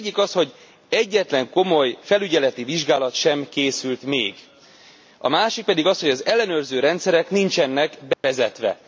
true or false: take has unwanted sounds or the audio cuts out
true